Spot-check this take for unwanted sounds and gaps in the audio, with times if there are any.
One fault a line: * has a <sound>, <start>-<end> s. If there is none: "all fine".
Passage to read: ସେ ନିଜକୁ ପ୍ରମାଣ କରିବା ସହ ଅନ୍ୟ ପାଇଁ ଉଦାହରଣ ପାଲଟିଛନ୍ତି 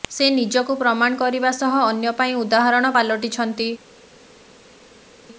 all fine